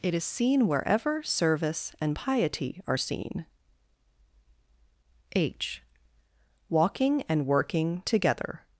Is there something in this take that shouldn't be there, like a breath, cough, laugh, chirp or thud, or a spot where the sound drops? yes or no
no